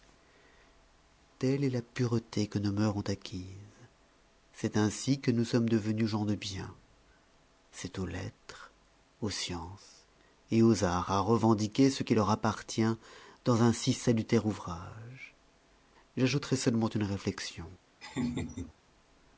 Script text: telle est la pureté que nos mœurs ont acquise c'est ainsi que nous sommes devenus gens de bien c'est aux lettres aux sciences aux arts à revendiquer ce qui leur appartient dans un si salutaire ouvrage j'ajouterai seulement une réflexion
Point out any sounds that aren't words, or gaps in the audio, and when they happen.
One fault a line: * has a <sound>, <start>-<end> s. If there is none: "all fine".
* has a laugh, 18.0-18.7 s